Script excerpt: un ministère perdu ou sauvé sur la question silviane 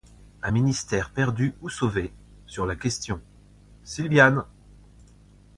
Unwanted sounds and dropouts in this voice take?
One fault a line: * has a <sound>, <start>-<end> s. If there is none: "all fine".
all fine